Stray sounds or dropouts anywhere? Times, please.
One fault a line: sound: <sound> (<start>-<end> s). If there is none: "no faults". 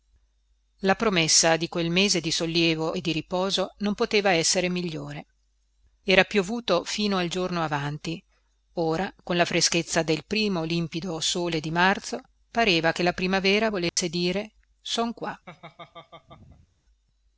sound: dropout (13.9-14.0 s)
sound: laugh (15.5-16.7 s)